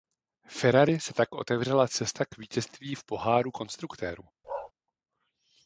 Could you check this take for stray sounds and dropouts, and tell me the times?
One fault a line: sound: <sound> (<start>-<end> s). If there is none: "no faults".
sound: bark (4.4-4.7 s)